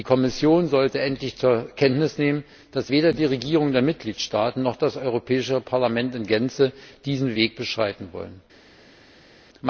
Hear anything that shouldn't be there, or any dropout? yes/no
no